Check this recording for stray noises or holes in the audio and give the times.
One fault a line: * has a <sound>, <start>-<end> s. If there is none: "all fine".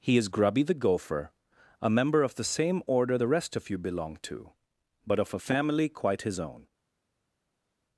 all fine